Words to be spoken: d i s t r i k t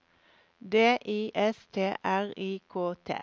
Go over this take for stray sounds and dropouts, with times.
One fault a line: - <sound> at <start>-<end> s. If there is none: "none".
none